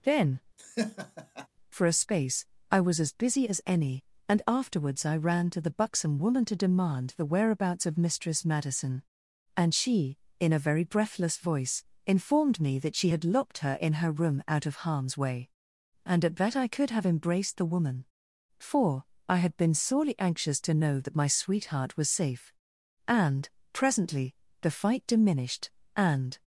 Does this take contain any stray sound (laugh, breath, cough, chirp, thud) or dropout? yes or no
yes